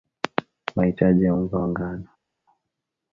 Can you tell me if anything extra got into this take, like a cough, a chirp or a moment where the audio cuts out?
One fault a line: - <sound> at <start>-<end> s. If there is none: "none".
none